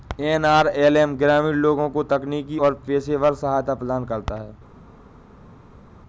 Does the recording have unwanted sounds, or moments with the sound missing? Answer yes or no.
no